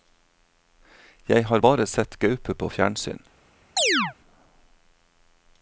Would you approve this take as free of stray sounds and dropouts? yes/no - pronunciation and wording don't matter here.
no